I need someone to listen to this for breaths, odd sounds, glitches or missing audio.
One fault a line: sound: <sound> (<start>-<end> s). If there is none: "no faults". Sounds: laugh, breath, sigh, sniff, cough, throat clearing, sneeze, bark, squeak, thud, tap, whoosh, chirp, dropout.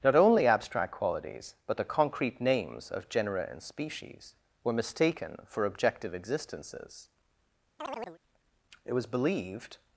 sound: chirp (7.8-8.2 s)